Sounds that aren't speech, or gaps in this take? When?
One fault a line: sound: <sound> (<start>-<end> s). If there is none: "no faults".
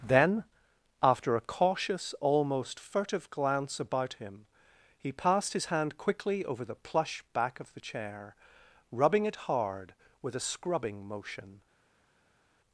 no faults